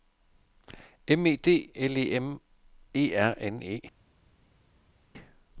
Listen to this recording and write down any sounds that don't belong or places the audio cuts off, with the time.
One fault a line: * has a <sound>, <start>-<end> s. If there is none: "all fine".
all fine